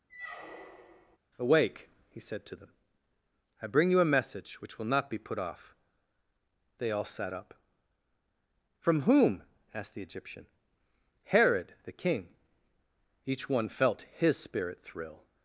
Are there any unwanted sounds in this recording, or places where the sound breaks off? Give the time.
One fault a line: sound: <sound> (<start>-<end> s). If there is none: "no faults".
sound: squeak (0.1-1.2 s)